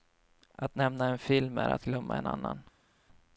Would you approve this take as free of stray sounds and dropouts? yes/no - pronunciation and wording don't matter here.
yes